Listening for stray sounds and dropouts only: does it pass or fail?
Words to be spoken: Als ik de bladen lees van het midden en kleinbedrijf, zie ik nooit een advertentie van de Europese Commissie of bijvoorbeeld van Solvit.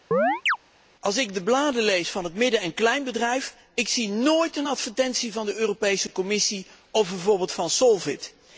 fail